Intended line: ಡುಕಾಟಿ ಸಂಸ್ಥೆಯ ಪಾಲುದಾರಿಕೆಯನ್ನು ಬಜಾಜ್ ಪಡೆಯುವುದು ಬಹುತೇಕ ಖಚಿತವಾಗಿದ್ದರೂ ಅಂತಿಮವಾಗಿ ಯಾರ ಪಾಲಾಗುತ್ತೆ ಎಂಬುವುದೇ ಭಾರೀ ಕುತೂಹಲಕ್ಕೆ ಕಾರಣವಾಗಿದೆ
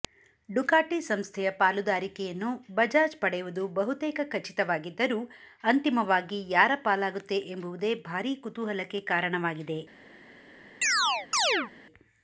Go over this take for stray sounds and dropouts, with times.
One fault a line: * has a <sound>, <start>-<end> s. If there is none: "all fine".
* has a chirp, 10.8-11.7 s